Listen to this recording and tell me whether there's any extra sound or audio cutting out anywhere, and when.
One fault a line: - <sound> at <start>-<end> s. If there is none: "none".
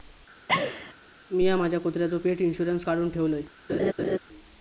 - laugh at 0.5-0.9 s
- laugh at 3.7-4.2 s